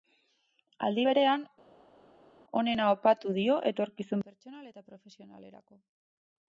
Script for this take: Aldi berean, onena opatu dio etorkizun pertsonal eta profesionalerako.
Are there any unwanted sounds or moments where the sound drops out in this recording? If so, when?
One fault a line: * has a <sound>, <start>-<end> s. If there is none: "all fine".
all fine